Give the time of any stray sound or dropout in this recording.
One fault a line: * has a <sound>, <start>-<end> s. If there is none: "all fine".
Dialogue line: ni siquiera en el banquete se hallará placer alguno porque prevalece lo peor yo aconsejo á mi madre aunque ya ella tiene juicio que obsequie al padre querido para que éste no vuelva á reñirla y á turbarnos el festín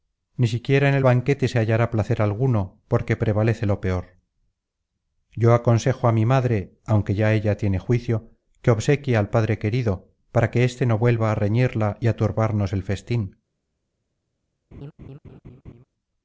* has a laugh, 14.7-15.8 s